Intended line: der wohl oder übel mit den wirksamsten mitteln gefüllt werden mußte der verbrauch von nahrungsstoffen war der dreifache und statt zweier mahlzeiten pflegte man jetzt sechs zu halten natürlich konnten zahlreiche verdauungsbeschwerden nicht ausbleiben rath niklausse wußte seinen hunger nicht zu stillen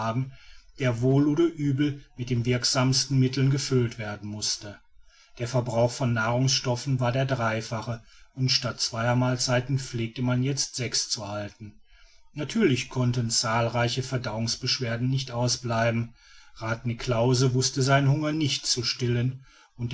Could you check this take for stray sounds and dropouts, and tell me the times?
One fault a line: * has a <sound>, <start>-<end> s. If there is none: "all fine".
all fine